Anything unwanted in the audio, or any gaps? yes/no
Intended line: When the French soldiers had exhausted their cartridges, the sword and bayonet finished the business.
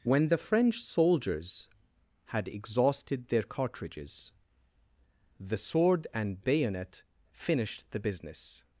no